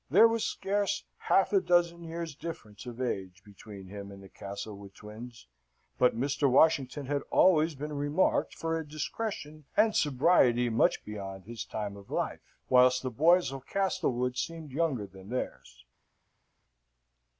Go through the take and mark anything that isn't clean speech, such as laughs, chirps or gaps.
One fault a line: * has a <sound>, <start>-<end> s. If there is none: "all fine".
all fine